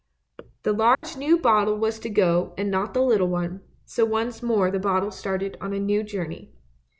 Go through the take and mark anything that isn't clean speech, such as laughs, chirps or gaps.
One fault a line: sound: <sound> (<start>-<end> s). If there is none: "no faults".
sound: dropout (0.9-1.0 s)